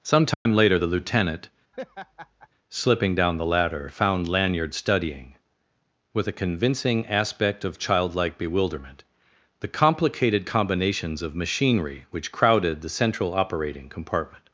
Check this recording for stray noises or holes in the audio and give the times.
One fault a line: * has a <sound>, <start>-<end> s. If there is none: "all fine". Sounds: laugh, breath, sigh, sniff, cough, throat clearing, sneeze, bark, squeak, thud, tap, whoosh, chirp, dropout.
* has a dropout, 0.3-0.5 s
* has a laugh, 1.7-2.5 s